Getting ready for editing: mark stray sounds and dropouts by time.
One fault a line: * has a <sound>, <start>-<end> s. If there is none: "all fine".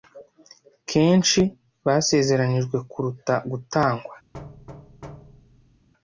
* has a thud, 4.3-5.9 s